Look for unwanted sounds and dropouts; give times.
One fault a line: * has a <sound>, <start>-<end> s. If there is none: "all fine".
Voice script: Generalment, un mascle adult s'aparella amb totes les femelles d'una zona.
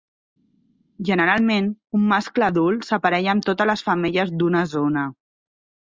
all fine